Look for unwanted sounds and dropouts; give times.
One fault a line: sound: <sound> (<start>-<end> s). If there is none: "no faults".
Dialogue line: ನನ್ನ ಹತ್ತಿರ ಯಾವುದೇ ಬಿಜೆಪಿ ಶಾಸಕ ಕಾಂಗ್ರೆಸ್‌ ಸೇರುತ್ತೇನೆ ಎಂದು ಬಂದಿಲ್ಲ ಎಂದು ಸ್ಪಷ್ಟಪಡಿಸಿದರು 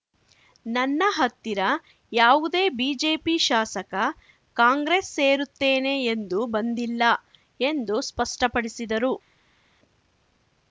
no faults